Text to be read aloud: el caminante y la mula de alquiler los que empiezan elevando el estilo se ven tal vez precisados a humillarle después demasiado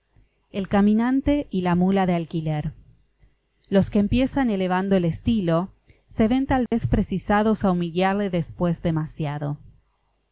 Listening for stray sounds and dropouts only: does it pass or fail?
fail